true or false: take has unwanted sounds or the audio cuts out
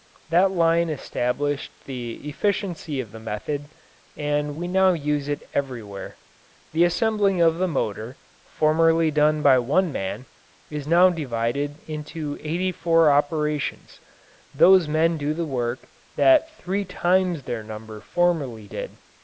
false